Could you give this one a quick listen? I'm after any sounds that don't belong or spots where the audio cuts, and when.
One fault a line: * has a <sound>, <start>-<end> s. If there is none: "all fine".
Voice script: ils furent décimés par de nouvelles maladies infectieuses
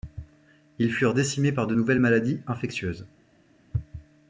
all fine